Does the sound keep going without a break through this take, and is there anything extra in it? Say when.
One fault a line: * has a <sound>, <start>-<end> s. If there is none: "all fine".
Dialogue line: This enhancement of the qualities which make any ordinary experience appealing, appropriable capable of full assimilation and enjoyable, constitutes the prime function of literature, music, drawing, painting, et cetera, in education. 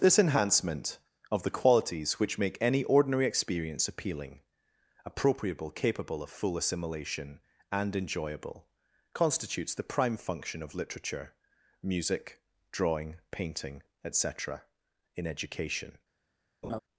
* has a laugh, 16.6-16.8 s